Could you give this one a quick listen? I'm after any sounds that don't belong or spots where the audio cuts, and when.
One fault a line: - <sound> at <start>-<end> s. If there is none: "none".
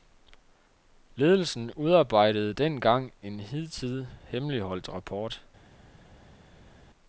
none